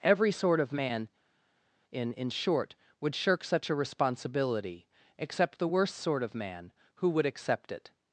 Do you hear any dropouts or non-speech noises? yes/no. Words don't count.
no